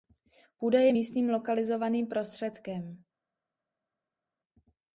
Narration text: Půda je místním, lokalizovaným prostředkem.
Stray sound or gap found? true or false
false